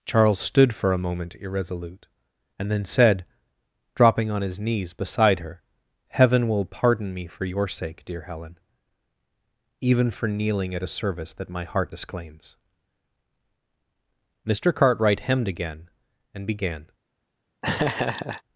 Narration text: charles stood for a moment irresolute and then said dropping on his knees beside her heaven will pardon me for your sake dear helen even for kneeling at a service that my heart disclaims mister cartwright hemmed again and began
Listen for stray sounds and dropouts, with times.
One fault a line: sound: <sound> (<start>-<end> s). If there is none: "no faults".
sound: laugh (17.6-18.4 s)